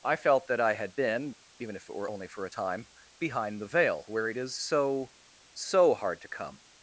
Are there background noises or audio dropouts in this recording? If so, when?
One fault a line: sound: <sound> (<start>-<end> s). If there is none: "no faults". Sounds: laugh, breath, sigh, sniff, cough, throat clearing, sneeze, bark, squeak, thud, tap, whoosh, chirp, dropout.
no faults